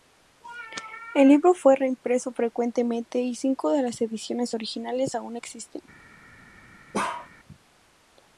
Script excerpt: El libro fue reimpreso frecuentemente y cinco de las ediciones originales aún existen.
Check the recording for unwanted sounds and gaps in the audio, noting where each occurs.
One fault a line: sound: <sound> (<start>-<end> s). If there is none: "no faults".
sound: bark (6.9-7.3 s)